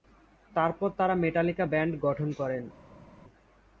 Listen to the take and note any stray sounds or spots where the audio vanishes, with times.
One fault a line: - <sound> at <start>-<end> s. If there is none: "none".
none